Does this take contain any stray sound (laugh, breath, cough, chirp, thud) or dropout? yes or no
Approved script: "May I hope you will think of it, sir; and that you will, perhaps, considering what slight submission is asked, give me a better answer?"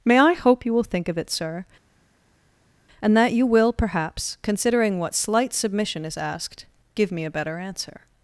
no